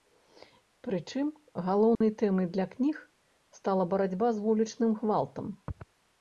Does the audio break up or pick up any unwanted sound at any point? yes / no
yes